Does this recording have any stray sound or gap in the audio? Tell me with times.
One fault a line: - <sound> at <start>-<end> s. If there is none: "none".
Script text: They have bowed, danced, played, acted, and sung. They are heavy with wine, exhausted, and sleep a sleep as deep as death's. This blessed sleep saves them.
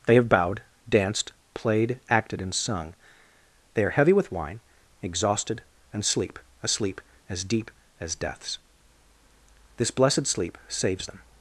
none